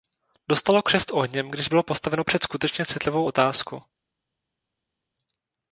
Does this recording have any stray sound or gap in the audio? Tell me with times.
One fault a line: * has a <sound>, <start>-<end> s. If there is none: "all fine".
all fine